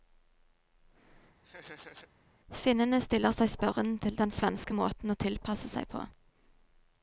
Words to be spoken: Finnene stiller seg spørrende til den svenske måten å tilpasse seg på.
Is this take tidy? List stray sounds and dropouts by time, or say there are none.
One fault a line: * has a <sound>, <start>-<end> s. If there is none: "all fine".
* has a laugh, 1.4-2.1 s